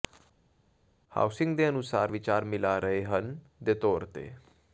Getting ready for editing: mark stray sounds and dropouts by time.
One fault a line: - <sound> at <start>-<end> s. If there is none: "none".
none